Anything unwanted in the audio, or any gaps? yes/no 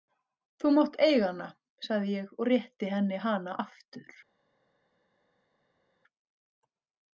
no